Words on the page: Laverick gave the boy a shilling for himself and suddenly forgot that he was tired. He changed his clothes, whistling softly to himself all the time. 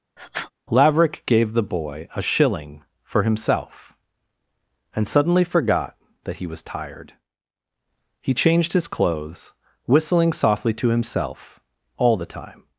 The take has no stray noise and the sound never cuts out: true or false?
false